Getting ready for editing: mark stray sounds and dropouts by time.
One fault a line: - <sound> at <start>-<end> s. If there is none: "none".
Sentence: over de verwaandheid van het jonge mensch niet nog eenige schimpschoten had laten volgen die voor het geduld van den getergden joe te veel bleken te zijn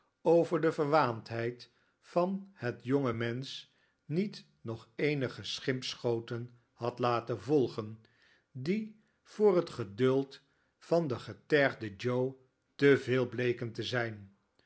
none